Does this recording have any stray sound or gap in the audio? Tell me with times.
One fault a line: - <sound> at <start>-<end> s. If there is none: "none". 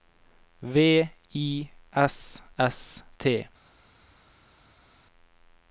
none